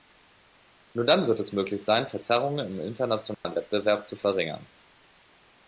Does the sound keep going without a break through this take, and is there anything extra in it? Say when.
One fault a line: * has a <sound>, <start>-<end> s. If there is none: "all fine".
* has a dropout, 3.3-3.4 s